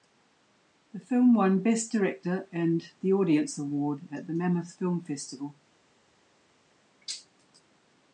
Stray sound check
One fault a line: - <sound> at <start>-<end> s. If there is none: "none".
none